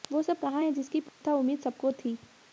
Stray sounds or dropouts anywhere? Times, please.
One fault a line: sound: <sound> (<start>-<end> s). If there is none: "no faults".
sound: dropout (1.1-1.2 s)